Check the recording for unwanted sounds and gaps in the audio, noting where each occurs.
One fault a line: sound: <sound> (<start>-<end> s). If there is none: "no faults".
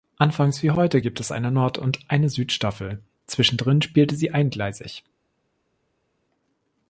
no faults